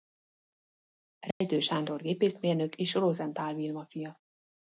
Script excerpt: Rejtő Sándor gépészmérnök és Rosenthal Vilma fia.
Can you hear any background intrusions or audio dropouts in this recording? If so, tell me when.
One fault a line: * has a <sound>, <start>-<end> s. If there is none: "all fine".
* has a dropout, 1.3-1.4 s